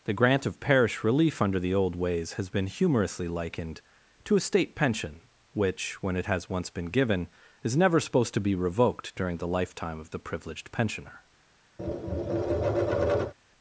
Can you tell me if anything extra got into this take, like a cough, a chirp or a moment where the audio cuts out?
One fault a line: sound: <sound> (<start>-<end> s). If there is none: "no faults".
sound: tap (11.8-13.3 s)